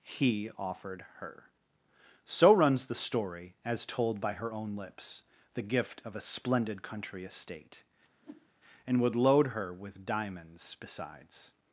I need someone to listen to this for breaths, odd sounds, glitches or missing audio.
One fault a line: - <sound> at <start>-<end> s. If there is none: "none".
- whoosh at 8.2-8.5 s